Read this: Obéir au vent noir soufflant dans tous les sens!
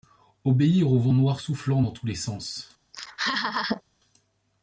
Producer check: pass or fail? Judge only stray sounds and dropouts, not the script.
fail